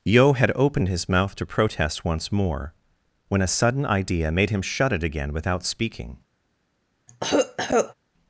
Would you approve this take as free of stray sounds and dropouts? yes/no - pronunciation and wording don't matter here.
no